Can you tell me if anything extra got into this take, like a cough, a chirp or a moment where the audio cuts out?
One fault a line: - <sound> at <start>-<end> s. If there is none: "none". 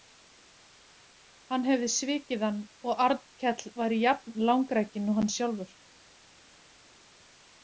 none